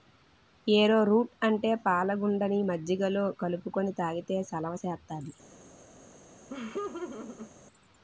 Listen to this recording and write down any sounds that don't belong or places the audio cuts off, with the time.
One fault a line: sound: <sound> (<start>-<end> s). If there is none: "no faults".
sound: laugh (6.5-7.5 s)